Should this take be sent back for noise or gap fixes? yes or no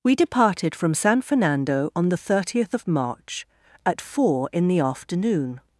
no